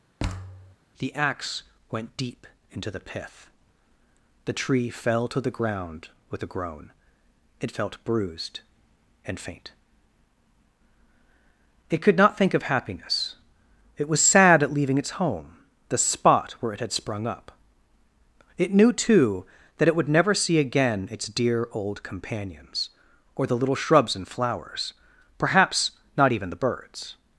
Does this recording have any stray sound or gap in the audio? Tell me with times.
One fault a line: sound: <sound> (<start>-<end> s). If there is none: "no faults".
sound: thud (0.2-0.8 s)